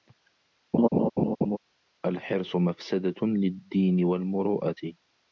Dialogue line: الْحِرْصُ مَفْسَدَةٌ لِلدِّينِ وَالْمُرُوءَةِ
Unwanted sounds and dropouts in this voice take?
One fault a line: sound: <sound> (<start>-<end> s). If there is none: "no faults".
sound: laugh (0.7-1.6 s)